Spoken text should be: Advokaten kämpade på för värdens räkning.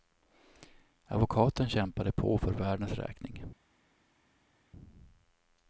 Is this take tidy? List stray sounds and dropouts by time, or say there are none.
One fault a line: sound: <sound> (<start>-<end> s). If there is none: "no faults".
no faults